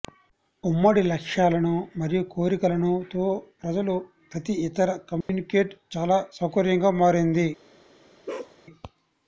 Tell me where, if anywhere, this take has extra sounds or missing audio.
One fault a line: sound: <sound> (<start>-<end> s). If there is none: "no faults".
sound: dropout (5.2-5.3 s)
sound: bark (8.3-8.6 s)